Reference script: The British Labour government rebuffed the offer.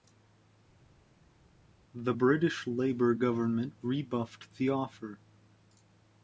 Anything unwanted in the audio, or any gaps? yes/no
no